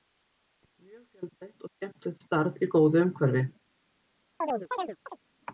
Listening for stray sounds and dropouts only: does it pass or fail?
fail